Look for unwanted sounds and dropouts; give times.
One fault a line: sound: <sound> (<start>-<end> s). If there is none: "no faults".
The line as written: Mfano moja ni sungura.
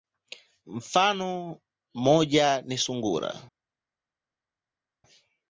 no faults